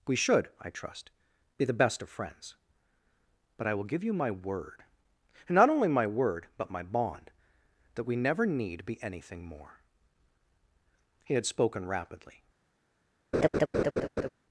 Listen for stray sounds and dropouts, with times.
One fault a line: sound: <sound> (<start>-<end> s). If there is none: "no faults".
sound: laugh (13.3-14.3 s)